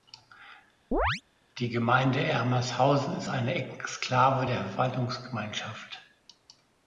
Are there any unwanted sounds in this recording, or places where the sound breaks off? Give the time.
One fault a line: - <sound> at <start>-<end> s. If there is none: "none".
- chirp at 0.9-1.2 s